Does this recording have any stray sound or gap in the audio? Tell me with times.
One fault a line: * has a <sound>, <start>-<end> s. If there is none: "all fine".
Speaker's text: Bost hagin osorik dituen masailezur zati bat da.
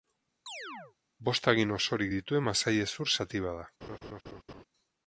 * has a chirp, 0.5-1.0 s
* has a laugh, 3.8-4.6 s